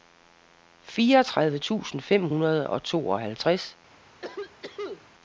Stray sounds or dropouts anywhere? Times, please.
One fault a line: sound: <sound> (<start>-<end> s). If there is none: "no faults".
sound: cough (4.2-5.0 s)